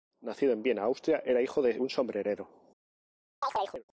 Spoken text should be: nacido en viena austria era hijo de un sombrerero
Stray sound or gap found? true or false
true